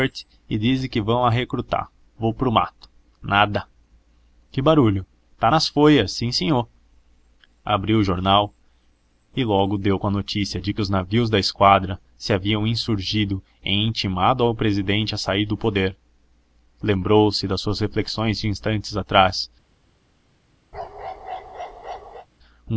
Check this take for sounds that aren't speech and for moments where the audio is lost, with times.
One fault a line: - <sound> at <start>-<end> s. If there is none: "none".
- bark at 20.7-22.3 s